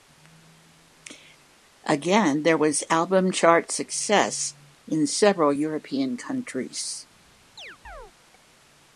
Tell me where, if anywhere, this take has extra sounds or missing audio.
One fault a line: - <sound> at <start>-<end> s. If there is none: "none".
- chirp at 7.6-8.1 s